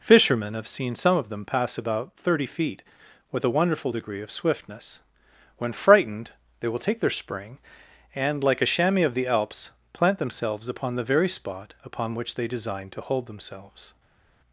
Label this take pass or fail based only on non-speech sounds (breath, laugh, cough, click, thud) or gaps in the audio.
pass